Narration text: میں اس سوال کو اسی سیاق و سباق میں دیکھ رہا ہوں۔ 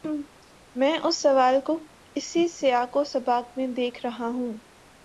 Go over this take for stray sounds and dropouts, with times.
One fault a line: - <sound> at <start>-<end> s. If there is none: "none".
none